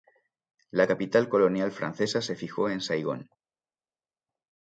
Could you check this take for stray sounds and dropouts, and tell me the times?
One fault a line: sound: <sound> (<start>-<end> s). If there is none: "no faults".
no faults